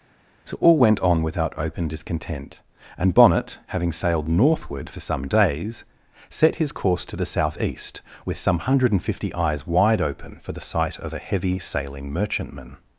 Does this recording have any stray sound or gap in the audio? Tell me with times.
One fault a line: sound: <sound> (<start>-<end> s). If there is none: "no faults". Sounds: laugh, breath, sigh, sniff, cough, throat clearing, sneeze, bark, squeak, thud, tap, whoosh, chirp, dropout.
no faults